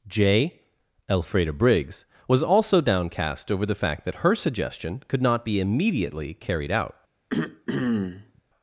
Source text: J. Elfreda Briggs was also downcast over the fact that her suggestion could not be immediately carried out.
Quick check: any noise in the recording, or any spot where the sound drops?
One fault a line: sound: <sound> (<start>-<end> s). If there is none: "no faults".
sound: throat clearing (7.3-8.4 s)